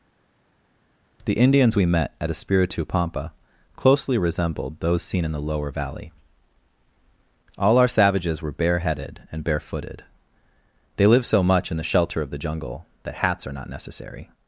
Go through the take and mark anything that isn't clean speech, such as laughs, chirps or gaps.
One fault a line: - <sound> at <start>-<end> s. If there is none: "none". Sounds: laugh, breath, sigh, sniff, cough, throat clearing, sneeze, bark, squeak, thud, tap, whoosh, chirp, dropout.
none